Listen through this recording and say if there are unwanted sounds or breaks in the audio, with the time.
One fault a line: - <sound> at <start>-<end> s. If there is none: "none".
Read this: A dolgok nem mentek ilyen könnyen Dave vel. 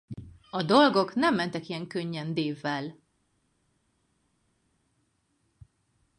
none